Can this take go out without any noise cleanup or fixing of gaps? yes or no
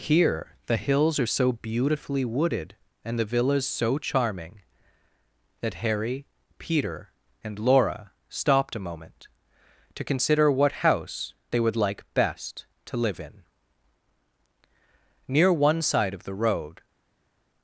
yes